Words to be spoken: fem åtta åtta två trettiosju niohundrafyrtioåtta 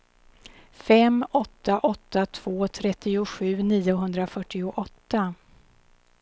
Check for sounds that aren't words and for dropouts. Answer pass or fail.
pass